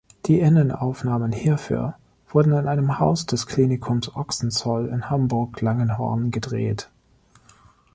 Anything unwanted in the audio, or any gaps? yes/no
no